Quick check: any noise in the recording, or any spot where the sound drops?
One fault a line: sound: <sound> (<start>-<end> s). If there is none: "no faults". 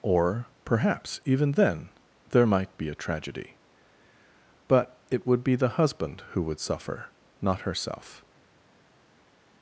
no faults